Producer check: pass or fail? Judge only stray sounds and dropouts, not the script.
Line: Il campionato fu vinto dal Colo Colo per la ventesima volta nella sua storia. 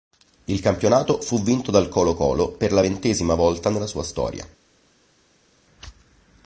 pass